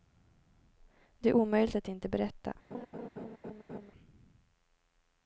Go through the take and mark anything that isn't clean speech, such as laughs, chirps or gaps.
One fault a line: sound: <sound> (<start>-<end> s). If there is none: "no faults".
sound: laugh (2.7-3.9 s)